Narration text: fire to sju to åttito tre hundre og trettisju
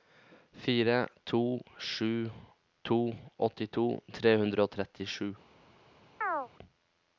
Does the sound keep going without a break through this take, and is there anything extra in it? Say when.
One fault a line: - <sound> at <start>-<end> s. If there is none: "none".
- chirp at 6.2-6.5 s